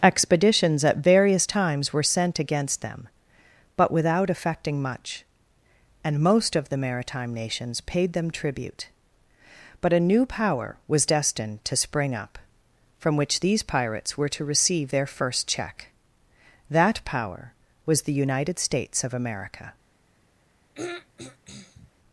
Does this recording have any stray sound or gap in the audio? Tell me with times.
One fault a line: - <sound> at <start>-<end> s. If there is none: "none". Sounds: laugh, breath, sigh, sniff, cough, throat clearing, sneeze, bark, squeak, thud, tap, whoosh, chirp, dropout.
- throat clearing at 20.7-21.9 s